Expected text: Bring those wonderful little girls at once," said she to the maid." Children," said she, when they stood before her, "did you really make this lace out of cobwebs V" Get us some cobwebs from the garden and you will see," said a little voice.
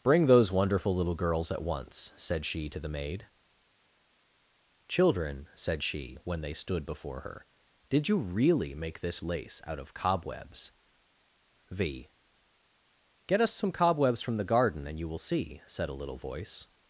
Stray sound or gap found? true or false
false